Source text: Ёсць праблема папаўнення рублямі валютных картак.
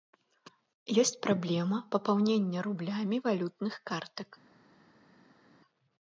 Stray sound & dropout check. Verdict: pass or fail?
pass